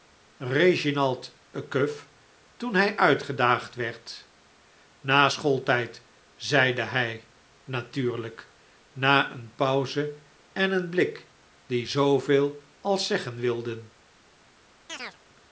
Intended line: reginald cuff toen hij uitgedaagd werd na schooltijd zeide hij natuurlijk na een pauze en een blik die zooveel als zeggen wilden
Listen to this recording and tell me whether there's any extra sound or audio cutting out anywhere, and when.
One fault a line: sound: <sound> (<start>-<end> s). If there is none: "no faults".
sound: chirp (14.9-15.2 s)